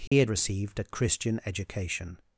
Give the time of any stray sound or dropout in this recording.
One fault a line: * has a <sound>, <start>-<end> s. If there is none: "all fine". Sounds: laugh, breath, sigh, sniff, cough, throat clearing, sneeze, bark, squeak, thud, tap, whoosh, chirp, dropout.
* has a dropout, 0.1-0.1 s